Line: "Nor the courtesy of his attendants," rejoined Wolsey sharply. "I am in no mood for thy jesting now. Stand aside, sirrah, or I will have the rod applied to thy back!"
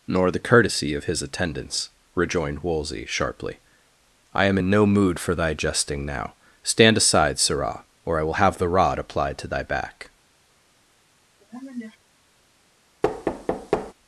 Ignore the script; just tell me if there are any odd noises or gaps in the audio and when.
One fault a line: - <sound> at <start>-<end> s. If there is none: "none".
- sniff at 11.4-12.0 s
- thud at 13.0-13.9 s